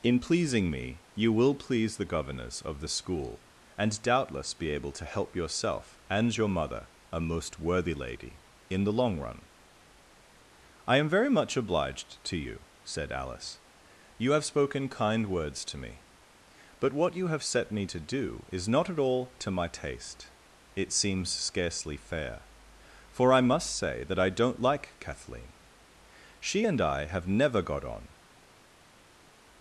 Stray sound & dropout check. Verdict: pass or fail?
pass